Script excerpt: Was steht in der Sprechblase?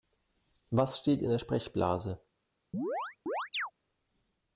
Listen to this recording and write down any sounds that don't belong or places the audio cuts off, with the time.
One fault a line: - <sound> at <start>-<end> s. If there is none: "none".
- chirp at 2.7-3.7 s